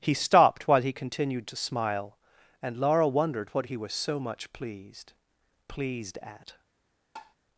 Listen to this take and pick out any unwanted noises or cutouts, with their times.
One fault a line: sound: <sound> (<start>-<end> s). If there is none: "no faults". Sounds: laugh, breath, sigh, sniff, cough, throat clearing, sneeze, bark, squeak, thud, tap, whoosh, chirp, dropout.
sound: tap (7.2-7.4 s)